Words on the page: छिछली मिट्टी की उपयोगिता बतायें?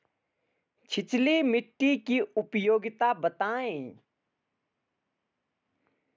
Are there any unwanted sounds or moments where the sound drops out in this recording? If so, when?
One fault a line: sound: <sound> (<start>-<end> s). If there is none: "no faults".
no faults